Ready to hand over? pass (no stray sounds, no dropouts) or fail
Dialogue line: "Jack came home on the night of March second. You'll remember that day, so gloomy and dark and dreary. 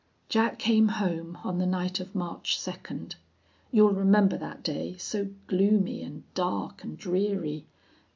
pass